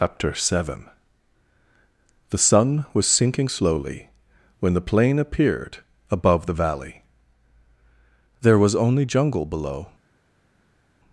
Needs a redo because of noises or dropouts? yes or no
no